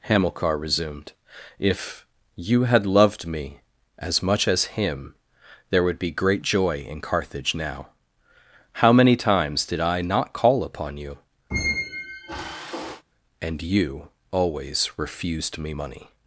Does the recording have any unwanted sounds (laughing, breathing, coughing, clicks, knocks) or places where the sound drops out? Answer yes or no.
yes